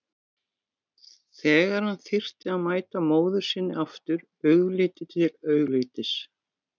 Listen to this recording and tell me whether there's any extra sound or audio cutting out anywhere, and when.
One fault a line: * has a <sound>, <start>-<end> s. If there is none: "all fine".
all fine